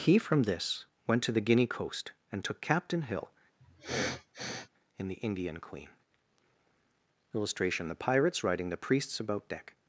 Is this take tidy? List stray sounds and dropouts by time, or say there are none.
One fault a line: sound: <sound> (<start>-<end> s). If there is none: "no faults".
sound: sniff (3.6-4.7 s)